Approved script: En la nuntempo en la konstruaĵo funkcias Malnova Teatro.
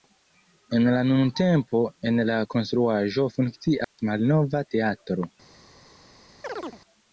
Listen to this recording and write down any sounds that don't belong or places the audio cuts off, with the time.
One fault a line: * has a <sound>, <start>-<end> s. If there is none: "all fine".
* has a dropout, 3.8-4.0 s
* has a chirp, 6.4-6.8 s